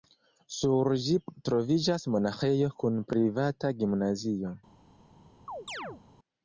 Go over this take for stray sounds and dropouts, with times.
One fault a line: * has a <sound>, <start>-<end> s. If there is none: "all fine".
* has a chirp, 5.5-6.0 s